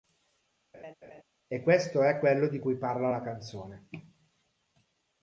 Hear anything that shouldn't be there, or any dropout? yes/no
yes